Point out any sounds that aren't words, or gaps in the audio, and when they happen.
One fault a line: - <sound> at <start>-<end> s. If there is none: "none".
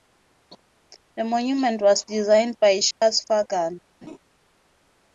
- dropout at 2.9-3.0 s
- laugh at 4.0-4.2 s